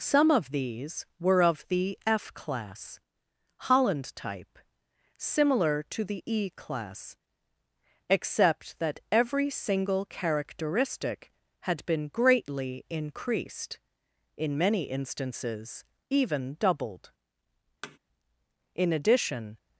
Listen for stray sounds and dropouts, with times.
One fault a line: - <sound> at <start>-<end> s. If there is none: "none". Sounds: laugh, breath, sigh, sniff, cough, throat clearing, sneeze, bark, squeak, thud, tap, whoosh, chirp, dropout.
- thud at 17.8-18.0 s